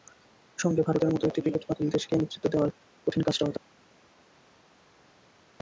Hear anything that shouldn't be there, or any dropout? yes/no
no